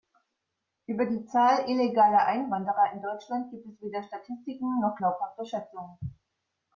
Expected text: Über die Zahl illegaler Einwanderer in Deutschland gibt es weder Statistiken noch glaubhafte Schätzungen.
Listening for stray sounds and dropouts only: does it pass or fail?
pass